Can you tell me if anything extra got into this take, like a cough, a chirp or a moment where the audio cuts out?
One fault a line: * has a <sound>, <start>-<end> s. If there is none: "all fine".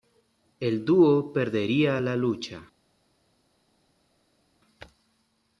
all fine